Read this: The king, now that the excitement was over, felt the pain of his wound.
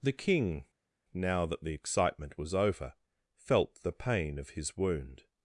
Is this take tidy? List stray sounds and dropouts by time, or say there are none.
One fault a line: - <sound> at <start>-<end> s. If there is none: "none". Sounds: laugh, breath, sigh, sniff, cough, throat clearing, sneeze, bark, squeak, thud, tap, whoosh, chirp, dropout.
none